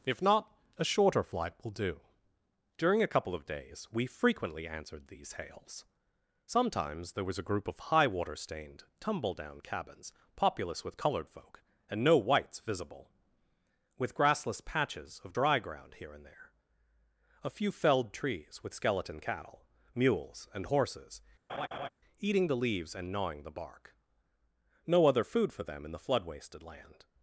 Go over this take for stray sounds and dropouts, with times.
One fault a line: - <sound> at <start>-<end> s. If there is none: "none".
- laugh at 21.5-21.9 s